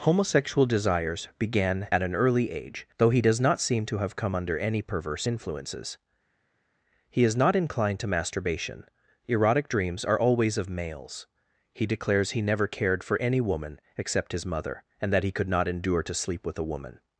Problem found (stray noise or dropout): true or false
false